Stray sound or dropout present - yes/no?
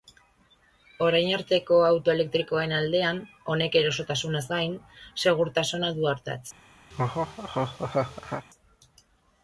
yes